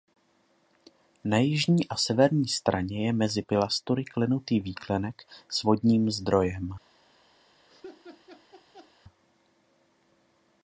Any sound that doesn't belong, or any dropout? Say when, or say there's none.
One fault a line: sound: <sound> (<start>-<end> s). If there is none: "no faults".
sound: laugh (7.7-8.9 s)